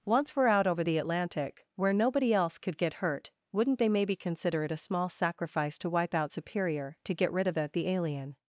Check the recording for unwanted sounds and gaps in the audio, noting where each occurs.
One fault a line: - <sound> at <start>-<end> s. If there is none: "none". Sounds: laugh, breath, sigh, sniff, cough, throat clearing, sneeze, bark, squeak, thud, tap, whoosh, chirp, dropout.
none